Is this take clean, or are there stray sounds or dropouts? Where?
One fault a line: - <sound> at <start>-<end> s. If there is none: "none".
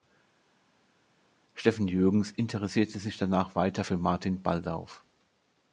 none